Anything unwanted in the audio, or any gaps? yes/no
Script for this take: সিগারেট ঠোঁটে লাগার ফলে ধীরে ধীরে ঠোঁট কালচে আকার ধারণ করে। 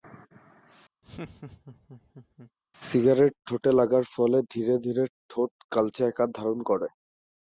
yes